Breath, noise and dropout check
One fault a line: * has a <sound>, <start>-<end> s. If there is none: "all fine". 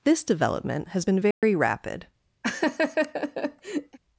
* has a dropout, 1.3-1.4 s
* has a laugh, 2.4-4.0 s